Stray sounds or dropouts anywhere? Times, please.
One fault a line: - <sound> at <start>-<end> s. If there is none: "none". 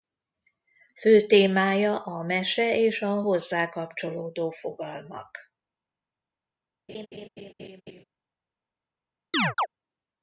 - laugh at 6.9-8.0 s
- chirp at 9.3-9.7 s